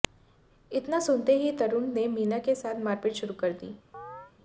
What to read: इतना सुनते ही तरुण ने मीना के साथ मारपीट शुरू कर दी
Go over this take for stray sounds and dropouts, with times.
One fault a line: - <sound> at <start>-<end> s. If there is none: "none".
- chirp at 3.9-4.3 s